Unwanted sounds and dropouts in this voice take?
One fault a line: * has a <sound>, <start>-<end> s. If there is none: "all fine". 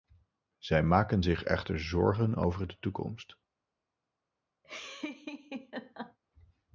* has a laugh, 4.6-6.2 s